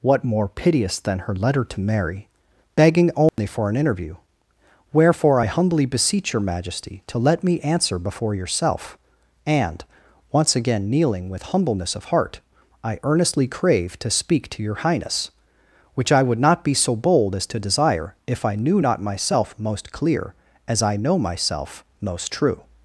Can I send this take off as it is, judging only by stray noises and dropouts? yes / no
no